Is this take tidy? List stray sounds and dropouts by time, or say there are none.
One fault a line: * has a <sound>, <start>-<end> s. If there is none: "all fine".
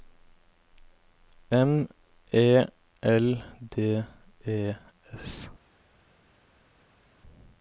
all fine